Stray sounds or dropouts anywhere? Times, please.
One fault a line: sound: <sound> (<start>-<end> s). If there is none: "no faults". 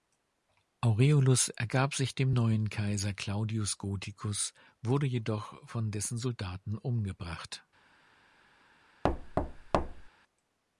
sound: thud (9.0-10.1 s)